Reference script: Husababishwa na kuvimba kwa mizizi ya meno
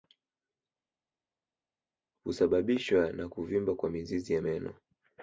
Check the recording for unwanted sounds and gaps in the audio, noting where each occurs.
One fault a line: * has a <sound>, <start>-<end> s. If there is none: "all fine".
all fine